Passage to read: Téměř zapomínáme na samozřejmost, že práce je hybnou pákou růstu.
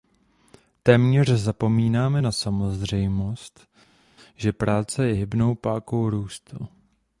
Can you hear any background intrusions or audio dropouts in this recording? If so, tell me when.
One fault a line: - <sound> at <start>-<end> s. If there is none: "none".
none